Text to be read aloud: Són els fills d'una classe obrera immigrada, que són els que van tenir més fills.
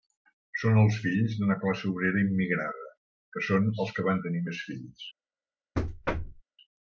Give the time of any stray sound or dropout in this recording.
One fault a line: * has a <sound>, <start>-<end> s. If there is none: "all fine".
* has a thud, 5.8-6.4 s